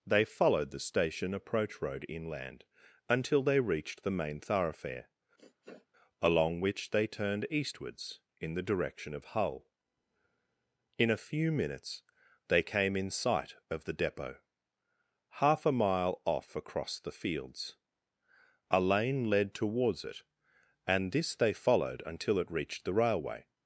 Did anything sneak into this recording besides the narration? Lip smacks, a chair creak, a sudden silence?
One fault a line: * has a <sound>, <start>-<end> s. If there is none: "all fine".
* has a sniff, 5.4-5.9 s